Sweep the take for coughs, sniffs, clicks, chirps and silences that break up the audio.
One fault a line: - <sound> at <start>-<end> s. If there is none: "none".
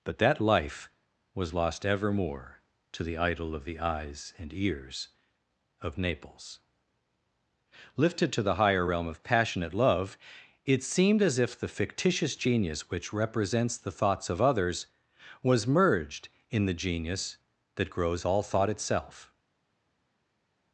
none